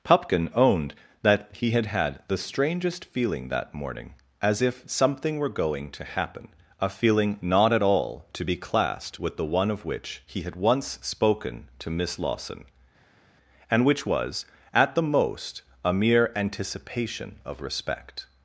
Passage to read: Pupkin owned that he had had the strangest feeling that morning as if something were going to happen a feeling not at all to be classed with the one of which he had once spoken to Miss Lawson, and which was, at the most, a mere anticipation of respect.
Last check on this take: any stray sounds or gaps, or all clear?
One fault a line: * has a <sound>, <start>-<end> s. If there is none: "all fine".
all fine